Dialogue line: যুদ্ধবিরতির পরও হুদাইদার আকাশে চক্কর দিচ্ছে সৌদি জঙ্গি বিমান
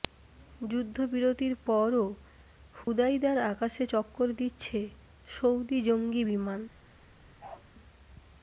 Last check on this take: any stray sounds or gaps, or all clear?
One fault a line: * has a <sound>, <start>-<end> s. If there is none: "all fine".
* has a dropout, 2.8-2.9 s
* has a bark, 7.4-7.6 s